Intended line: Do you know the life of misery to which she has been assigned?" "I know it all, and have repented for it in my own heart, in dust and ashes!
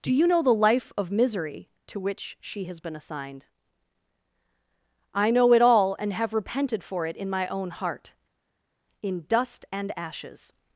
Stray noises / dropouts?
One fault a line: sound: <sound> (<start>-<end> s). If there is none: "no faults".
no faults